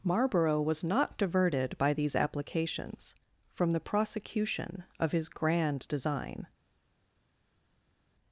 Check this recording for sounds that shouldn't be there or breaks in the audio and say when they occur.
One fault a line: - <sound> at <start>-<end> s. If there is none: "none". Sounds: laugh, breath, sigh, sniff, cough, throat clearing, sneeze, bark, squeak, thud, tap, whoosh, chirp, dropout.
none